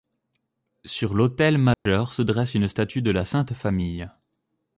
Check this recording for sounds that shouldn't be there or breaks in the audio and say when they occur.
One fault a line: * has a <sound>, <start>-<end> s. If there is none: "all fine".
* has a dropout, 1.7-1.9 s